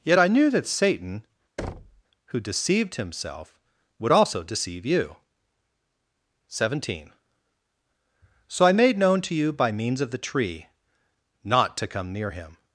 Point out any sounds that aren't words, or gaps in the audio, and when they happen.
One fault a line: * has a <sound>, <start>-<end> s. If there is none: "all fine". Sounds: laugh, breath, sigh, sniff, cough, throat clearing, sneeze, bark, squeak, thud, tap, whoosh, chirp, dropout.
* has a thud, 1.6-2.0 s